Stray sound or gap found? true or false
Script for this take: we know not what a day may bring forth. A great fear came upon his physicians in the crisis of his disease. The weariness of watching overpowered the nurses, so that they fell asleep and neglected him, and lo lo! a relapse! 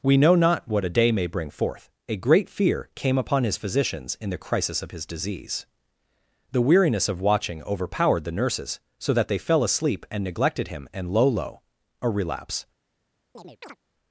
true